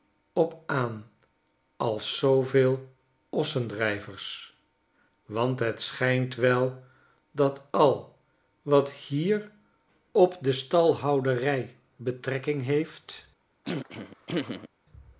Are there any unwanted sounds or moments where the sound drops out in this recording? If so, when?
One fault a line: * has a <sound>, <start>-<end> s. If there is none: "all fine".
* has a throat clearing, 13.6-14.7 s